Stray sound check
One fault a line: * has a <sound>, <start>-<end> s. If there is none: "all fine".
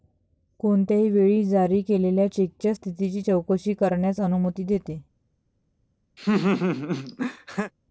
* has a laugh, 6.2-7.7 s